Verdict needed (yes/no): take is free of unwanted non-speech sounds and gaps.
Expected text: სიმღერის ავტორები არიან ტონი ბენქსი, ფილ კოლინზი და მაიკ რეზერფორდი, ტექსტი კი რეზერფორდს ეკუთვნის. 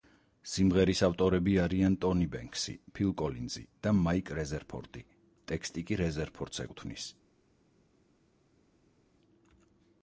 yes